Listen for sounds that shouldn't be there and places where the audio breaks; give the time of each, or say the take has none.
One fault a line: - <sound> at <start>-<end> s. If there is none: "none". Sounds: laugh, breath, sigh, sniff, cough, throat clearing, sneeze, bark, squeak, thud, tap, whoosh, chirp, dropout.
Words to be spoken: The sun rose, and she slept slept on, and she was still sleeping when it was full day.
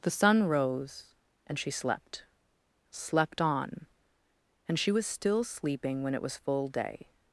none